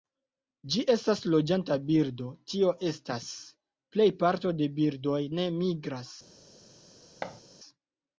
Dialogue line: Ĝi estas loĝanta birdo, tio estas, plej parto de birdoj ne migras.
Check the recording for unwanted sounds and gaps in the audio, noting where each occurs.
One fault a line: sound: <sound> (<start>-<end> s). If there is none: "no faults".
sound: thud (7.2-7.4 s)